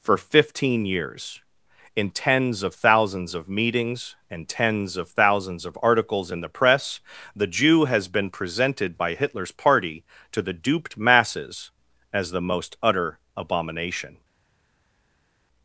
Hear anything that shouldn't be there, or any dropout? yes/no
no